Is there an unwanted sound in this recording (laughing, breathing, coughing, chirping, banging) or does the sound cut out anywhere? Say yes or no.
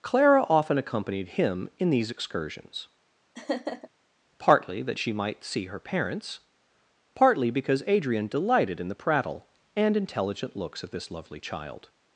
yes